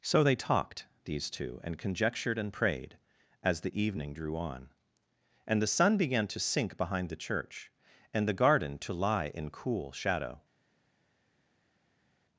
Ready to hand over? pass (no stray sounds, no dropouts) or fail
pass